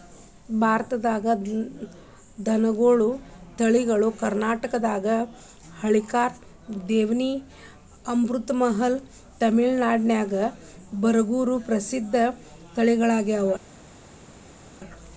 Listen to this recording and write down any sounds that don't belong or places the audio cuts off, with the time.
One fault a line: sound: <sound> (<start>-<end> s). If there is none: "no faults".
no faults